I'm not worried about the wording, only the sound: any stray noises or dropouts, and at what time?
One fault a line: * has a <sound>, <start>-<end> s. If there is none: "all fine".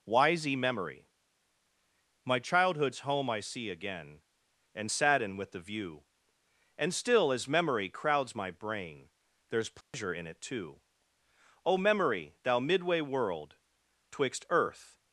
* has a dropout, 9.8-9.9 s